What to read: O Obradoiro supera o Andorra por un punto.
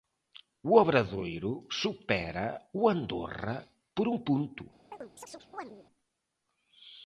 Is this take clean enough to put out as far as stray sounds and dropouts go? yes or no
no